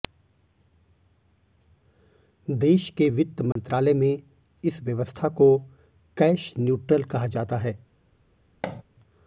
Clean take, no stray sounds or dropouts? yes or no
no